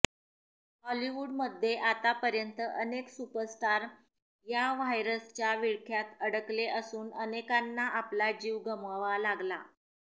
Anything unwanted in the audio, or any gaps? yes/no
no